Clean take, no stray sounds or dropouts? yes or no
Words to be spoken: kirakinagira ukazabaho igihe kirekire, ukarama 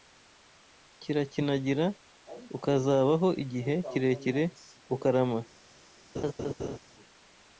no